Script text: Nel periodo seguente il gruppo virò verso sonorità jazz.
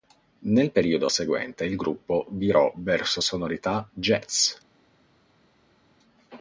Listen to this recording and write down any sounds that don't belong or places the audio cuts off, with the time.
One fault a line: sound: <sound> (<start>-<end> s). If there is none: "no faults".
no faults